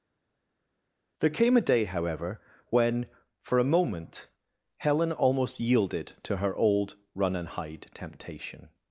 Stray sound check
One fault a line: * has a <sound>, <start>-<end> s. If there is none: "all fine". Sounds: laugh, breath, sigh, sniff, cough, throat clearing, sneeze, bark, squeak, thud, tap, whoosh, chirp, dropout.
all fine